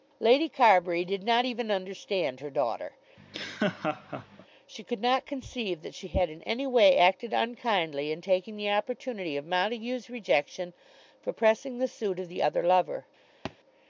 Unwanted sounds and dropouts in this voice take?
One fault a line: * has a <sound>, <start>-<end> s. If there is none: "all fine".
* has a laugh, 3.2-4.5 s
* has a thud, 13.4-13.6 s